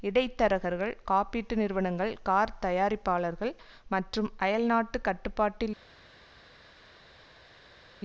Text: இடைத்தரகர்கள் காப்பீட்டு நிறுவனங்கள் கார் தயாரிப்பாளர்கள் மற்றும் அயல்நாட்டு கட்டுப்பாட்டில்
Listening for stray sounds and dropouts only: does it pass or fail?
pass